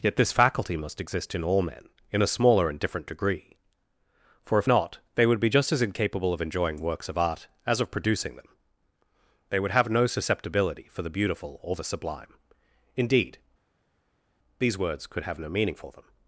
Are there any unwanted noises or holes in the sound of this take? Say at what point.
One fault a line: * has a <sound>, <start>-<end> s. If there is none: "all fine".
all fine